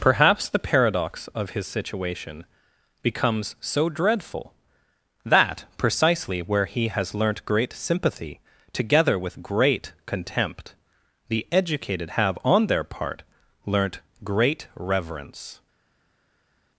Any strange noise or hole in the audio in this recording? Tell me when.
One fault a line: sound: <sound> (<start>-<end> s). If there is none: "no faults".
no faults